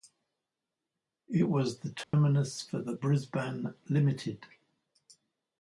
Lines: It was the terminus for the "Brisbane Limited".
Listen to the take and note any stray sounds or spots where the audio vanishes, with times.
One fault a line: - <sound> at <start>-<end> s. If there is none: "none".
- dropout at 2.0-2.1 s